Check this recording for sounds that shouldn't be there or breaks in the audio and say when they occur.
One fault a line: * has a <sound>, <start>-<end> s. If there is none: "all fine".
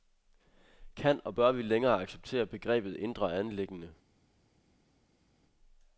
all fine